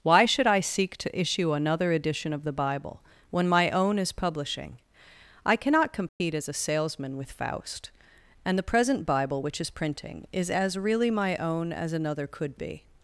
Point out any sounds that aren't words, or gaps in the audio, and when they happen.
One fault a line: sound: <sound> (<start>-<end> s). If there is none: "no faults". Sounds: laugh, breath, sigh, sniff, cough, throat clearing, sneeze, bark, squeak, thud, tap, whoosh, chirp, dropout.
sound: dropout (6.1-6.2 s)